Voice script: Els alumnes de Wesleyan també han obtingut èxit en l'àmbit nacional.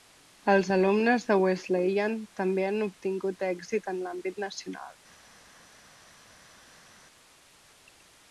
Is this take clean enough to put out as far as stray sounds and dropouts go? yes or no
yes